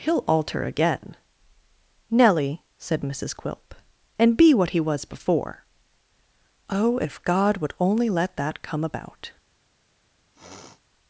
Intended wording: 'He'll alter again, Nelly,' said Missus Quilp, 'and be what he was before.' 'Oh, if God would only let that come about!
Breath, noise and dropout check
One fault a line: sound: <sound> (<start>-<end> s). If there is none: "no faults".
sound: sniff (10.3-10.8 s)